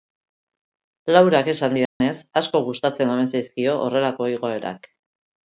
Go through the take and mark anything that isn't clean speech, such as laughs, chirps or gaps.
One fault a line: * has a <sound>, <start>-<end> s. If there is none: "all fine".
* has a dropout, 1.9-2.0 s